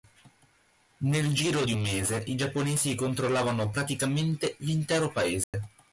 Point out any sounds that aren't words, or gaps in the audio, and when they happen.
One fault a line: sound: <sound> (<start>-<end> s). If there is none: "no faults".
sound: dropout (5.4-5.5 s)